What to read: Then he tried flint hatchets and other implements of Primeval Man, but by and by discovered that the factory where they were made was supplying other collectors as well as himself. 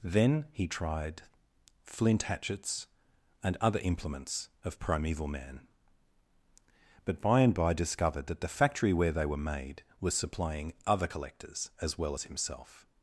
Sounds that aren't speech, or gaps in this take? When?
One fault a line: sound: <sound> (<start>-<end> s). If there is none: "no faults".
no faults